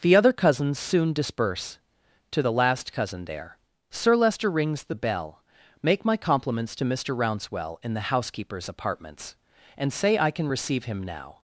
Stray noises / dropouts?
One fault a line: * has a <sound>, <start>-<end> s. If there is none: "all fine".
all fine